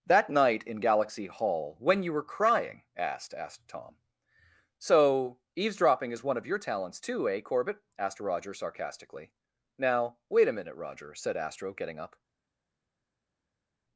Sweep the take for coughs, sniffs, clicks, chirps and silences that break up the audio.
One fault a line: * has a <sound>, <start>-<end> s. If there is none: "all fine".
all fine